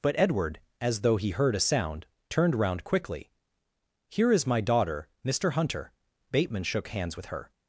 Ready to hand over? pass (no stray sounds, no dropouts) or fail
pass